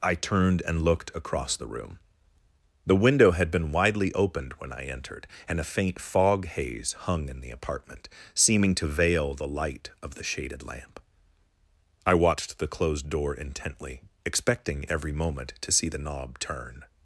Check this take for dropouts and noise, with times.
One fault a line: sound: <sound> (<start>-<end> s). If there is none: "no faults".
no faults